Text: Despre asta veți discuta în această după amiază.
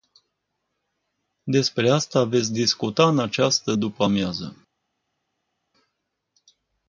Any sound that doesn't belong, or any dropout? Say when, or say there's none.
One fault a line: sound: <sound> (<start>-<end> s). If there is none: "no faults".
no faults